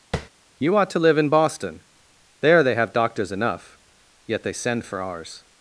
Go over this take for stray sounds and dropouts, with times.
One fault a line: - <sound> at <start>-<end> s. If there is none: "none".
- tap at 0.1-0.3 s